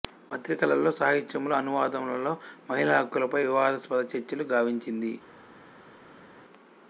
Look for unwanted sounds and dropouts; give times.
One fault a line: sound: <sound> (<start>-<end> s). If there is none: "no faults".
no faults